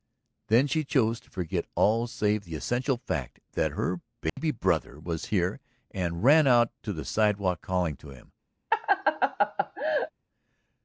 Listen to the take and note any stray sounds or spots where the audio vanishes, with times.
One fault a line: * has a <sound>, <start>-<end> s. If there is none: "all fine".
* has a dropout, 4.3-4.4 s
* has a laugh, 8.7-10.1 s